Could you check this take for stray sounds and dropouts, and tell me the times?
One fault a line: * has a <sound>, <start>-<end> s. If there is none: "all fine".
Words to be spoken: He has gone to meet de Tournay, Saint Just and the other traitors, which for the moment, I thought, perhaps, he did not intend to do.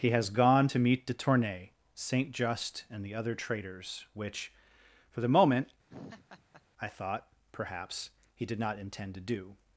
* has a laugh, 5.9-6.6 s